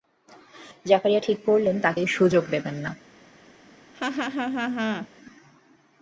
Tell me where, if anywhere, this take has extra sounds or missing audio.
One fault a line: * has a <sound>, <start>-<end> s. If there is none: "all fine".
* has a laugh, 3.9-5.1 s